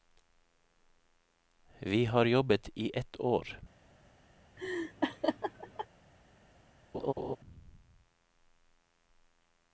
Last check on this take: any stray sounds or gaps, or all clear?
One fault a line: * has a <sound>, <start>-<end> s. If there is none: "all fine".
* has a laugh, 4.6-5.9 s
* has a laugh, 6.9-7.4 s